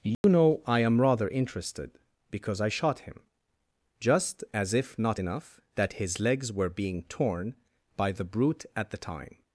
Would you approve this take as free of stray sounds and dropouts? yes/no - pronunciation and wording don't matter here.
no